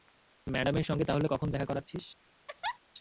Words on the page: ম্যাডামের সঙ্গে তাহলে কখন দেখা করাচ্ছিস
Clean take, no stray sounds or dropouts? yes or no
no